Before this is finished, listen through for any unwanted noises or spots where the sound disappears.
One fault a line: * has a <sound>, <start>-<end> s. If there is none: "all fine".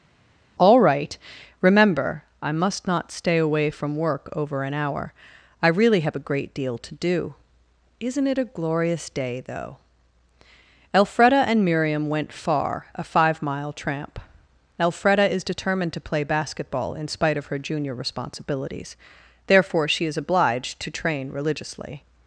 all fine